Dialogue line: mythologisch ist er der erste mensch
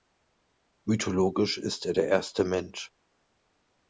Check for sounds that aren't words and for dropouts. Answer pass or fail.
pass